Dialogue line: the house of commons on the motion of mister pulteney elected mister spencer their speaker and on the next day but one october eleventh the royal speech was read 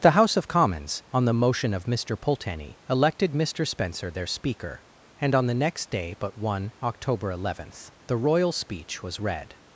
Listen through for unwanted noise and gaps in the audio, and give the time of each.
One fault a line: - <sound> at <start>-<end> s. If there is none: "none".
none